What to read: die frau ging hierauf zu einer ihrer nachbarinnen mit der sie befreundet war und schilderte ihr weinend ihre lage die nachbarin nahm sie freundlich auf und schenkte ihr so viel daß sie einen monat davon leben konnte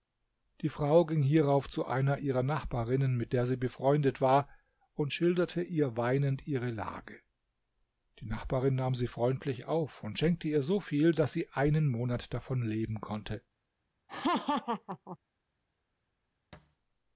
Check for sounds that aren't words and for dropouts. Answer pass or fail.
fail